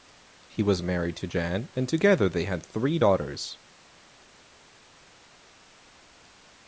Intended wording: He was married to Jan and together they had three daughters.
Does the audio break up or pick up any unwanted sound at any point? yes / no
no